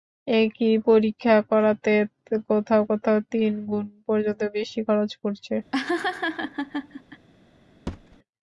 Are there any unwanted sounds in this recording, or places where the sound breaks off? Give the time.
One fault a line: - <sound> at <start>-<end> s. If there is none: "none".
- laugh at 5.7-7.3 s
- thud at 7.9-8.2 s